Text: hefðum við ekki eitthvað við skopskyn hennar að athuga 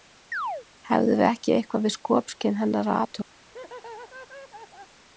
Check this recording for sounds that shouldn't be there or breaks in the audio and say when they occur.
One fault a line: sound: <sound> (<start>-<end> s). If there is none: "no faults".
sound: chirp (0.3-0.7 s)
sound: laugh (3.5-5.0 s)